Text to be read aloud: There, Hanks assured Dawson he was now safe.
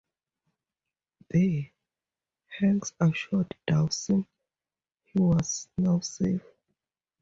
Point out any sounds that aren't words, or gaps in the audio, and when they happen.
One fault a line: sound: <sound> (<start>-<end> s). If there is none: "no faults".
no faults